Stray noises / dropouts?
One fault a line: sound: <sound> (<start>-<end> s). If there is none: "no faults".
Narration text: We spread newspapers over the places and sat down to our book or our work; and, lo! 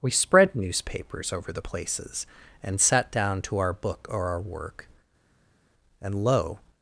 no faults